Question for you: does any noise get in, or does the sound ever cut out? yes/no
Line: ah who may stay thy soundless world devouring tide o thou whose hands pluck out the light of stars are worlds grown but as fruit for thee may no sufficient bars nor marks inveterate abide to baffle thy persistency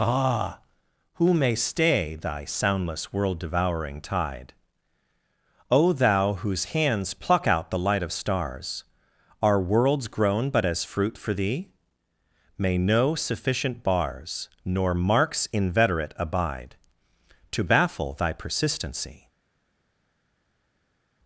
no